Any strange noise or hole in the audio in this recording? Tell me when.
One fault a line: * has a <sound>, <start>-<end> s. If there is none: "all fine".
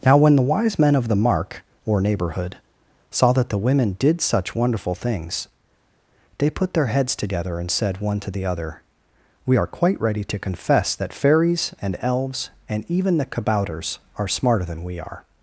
all fine